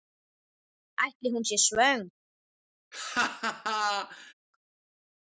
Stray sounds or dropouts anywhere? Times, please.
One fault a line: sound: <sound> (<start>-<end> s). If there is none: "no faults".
sound: laugh (2.9-4.3 s)